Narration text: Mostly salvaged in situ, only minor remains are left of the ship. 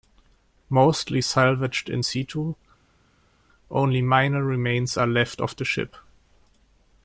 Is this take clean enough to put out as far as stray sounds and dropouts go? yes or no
yes